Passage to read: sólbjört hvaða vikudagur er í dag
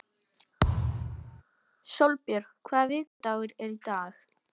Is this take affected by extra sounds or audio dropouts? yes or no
yes